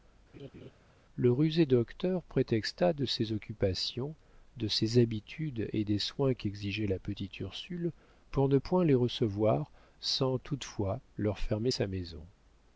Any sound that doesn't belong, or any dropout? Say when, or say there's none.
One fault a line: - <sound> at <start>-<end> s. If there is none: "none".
- laugh at 0.3-0.7 s